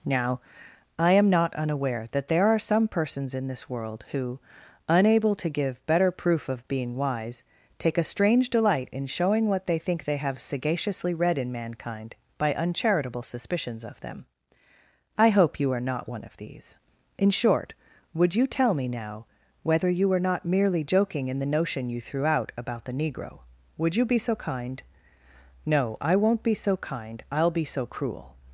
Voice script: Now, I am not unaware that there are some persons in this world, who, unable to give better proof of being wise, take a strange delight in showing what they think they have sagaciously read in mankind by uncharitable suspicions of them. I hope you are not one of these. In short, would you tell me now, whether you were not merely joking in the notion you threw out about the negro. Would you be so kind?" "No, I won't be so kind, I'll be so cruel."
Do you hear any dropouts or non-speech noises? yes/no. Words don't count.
no